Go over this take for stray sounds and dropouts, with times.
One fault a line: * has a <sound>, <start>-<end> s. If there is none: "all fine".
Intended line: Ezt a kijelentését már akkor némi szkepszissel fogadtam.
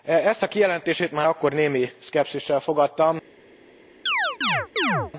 * has a chirp, 4.1-5.1 s